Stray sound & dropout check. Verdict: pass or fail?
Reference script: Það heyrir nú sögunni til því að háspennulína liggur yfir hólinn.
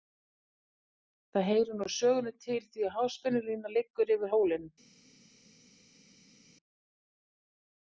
pass